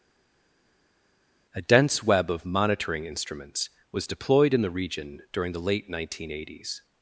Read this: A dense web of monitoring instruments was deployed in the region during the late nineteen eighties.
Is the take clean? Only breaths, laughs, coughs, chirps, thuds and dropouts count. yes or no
yes